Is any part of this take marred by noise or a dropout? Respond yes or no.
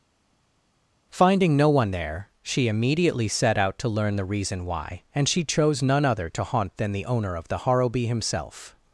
no